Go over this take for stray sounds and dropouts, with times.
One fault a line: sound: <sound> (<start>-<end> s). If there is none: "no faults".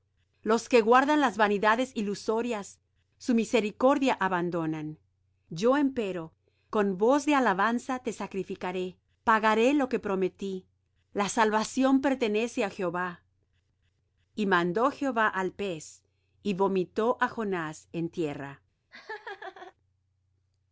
sound: laugh (18.9-19.7 s)